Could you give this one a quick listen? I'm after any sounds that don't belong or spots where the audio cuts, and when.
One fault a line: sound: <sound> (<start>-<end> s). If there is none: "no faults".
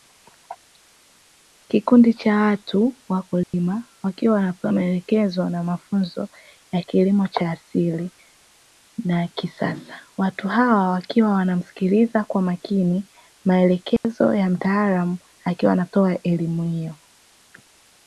sound: dropout (3.4-3.5 s)
sound: dropout (14.0-14.0 s)